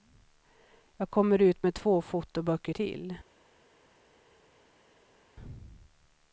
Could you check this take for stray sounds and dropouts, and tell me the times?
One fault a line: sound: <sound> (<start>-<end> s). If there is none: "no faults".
no faults